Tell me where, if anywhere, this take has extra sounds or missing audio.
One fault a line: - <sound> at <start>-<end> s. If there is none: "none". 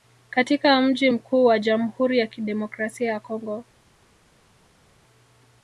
none